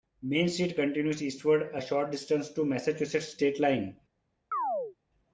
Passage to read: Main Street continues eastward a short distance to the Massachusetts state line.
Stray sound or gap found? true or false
true